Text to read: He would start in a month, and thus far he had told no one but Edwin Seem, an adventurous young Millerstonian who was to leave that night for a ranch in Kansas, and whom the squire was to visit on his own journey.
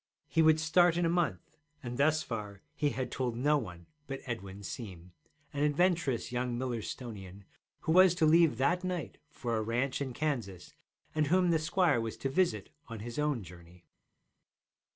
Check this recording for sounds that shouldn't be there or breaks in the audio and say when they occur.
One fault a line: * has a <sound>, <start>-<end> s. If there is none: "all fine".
all fine